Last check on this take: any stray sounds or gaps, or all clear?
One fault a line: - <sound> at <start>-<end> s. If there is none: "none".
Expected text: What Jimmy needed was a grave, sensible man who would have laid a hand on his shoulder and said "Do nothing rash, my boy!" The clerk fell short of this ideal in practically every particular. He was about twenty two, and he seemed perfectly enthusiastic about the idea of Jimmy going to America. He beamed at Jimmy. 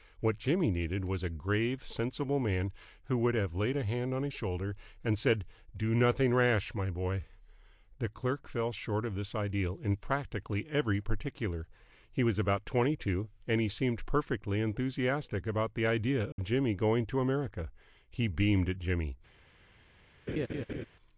- dropout at 16.3-16.4 s
- laugh at 20.3-20.9 s